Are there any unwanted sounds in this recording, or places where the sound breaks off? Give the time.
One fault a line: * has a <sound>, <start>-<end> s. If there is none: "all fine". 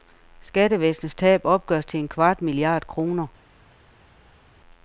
all fine